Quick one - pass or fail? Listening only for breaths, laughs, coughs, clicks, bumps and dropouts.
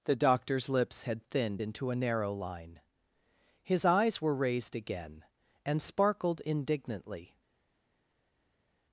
pass